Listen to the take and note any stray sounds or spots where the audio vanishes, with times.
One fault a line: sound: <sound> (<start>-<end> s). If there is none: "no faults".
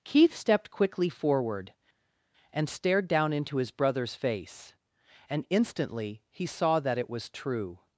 no faults